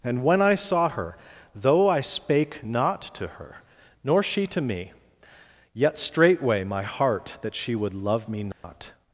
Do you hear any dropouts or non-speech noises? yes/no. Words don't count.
yes